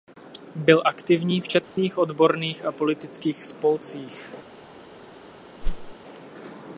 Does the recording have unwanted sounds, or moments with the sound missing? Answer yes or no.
yes